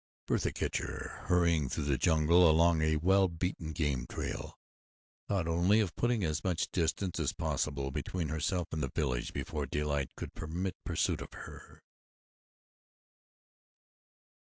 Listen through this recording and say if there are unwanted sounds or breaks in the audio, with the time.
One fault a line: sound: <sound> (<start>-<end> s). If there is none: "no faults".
no faults